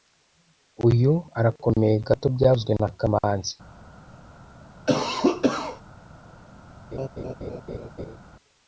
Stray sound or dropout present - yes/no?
yes